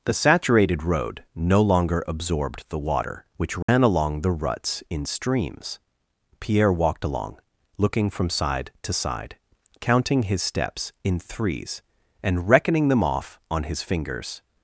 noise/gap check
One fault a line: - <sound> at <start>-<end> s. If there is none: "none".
- dropout at 3.6-3.7 s